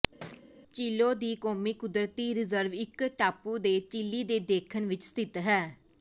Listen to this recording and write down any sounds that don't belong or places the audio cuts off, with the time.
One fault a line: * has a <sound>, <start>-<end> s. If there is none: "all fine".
* has a thud, 0.2-0.5 s